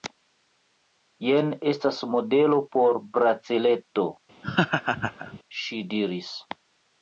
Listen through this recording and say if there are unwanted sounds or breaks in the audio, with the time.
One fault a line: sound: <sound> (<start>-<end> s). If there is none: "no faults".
sound: laugh (4.4-5.4 s)